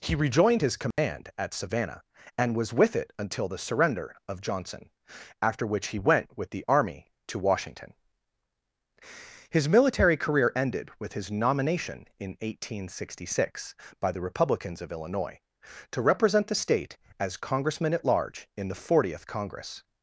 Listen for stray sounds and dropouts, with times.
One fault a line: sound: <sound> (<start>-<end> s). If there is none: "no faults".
sound: dropout (0.9-1.0 s)